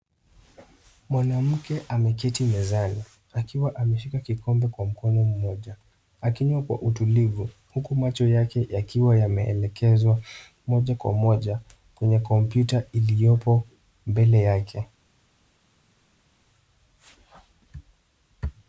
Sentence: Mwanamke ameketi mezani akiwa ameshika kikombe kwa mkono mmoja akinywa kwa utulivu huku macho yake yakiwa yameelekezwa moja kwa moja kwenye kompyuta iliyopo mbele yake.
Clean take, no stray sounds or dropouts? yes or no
yes